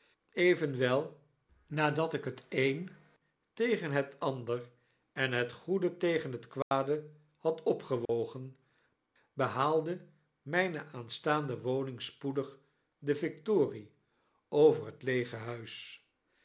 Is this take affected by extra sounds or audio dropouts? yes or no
yes